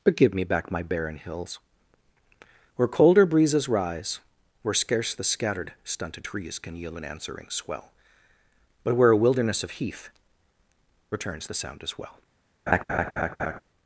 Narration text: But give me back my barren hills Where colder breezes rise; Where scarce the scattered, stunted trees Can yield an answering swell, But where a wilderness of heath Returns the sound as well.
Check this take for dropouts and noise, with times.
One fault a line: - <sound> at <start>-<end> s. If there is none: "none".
- laugh at 12.7-13.6 s